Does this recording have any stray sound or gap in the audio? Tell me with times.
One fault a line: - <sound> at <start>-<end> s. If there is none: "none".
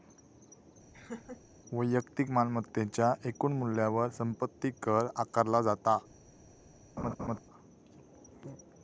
- laugh at 0.9-1.4 s
- laugh at 7.0-7.4 s